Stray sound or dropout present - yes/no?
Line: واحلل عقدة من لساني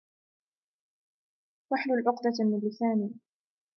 no